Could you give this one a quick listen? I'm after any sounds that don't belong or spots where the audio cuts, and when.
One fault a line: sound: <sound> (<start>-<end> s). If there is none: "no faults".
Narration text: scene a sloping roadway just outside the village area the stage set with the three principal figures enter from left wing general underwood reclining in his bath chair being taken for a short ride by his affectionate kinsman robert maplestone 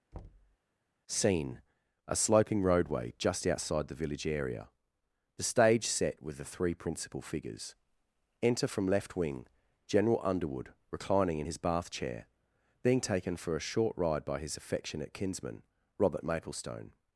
sound: thud (0.1-0.6 s)